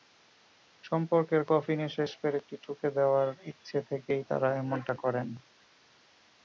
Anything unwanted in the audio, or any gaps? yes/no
no